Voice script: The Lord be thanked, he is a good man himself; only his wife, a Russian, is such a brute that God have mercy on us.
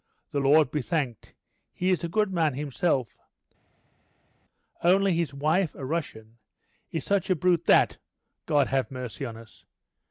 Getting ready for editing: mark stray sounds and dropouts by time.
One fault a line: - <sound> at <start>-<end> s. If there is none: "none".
none